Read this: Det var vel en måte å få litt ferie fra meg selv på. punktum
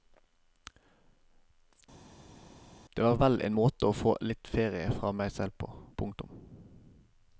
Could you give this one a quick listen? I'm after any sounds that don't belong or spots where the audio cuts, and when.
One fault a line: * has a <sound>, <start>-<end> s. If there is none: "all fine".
all fine